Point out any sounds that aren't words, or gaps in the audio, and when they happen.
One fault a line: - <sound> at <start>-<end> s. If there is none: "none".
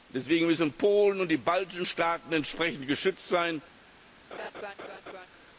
- laugh at 4.3-5.3 s